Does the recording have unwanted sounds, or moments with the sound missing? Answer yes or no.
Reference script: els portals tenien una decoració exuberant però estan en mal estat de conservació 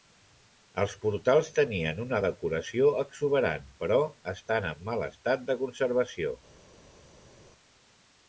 no